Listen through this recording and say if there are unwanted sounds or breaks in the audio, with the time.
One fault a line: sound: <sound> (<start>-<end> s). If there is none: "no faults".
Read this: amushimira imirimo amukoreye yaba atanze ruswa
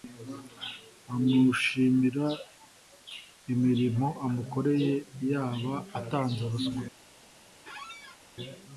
sound: squeak (7.6-8.2 s)